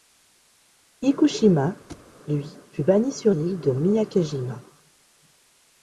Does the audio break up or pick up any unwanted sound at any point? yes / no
yes